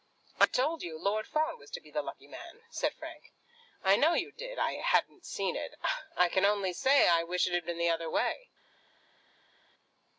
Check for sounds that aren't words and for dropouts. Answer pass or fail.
pass